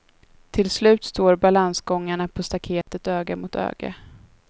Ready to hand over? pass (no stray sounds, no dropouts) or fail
fail